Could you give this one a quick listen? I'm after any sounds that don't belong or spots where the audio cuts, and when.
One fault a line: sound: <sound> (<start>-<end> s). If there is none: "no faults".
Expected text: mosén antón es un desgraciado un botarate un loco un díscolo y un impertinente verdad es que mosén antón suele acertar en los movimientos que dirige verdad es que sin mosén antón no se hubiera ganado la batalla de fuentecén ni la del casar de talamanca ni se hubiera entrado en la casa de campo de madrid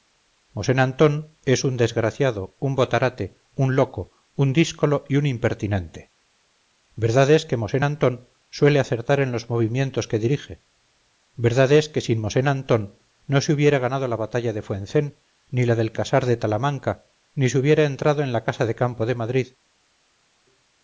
no faults